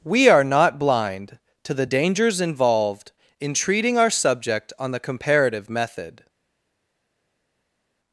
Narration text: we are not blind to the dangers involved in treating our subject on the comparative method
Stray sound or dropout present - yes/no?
no